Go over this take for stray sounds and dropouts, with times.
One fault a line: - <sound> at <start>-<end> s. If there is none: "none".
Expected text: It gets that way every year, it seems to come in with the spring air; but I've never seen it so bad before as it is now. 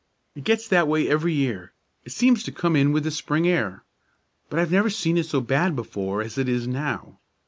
none